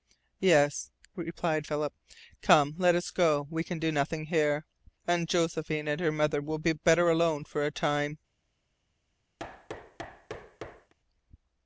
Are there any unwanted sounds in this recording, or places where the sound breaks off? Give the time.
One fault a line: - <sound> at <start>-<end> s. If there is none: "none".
- thud at 9.4-10.9 s